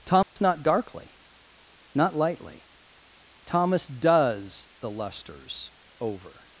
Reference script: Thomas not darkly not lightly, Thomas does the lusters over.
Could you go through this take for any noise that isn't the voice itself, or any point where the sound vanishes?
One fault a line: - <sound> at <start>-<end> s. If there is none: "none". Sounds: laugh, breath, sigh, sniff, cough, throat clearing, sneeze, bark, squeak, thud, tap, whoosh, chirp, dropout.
- dropout at 0.2-0.4 s